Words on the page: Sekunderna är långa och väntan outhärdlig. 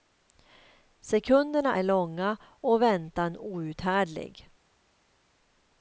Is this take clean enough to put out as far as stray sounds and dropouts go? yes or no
yes